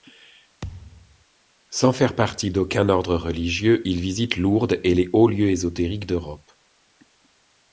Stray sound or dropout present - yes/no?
yes